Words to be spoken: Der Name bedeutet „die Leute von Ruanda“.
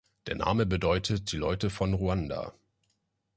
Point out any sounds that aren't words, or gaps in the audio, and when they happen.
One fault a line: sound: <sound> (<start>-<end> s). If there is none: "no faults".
no faults